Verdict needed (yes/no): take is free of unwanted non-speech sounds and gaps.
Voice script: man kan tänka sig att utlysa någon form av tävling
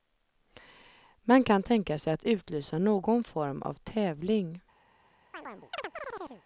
no